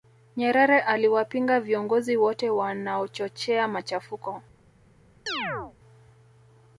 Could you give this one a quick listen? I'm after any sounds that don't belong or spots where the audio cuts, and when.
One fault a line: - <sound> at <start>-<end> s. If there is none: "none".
- chirp at 5.3-5.7 s